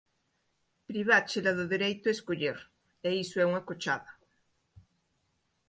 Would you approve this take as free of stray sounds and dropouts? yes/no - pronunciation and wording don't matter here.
yes